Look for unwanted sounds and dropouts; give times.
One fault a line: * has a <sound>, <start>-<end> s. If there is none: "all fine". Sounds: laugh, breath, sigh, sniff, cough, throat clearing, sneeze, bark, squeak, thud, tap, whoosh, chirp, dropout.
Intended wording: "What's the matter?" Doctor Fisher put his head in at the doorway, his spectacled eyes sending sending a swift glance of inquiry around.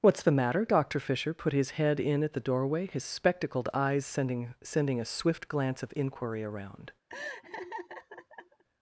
* has a laugh, 7.1-8.6 s